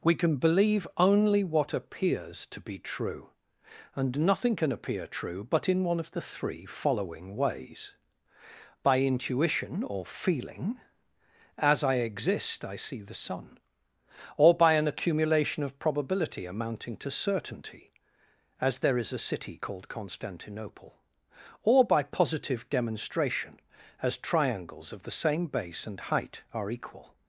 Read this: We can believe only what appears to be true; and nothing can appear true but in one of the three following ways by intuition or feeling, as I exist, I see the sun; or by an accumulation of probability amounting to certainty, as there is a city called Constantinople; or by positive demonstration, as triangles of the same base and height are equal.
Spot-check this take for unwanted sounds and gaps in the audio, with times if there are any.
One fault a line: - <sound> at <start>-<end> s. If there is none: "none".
none